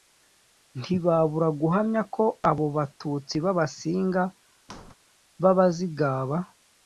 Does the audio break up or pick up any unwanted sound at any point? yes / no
yes